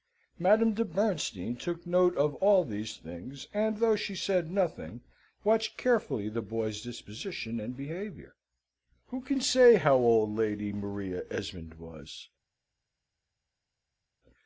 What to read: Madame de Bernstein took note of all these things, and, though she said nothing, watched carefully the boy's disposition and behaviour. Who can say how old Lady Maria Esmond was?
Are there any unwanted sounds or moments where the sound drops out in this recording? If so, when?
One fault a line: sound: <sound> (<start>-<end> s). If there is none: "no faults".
no faults